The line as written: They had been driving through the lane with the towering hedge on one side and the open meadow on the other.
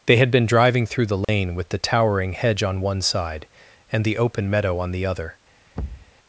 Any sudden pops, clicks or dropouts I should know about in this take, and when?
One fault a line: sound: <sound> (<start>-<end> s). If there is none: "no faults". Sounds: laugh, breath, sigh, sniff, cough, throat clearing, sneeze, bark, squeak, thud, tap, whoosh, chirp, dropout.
sound: dropout (1.2-1.3 s)
sound: thud (5.7-6.1 s)